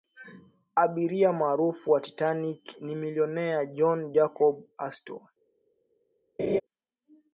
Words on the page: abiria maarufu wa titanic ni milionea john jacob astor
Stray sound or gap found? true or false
true